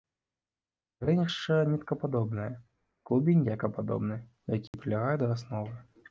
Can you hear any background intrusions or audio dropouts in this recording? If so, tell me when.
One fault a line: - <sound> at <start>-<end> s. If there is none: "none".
- dropout at 4.7-4.7 s